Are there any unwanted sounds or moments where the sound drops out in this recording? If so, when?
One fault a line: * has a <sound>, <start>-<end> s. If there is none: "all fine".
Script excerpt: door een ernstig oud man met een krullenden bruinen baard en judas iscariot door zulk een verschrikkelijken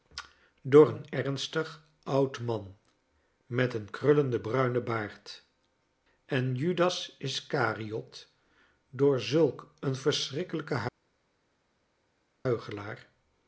all fine